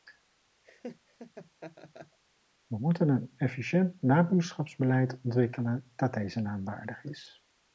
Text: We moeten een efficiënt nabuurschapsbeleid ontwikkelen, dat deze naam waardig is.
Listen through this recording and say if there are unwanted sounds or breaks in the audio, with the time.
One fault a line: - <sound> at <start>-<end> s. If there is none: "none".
- laugh at 0.6-2.2 s